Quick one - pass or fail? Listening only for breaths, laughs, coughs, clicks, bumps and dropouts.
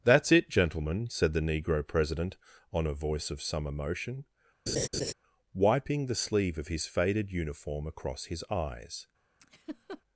fail